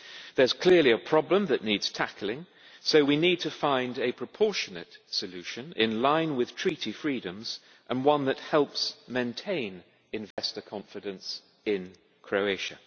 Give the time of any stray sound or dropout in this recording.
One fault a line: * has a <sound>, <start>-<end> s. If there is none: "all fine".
* has a dropout, 10.3-10.4 s